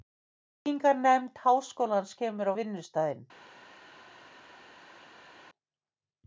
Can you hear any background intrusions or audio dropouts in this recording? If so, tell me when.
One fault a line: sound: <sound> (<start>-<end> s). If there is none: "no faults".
no faults